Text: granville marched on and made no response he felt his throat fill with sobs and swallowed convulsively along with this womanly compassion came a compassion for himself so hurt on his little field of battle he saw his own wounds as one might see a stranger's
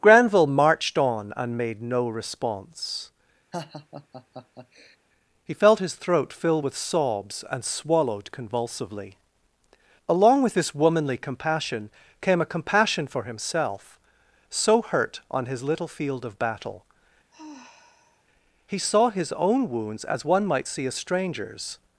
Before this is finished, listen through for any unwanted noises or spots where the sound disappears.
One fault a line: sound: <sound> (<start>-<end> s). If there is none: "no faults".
sound: laugh (3.5-5.0 s)
sound: sigh (17.3-18.2 s)